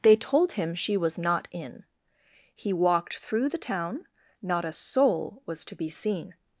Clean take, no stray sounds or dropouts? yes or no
yes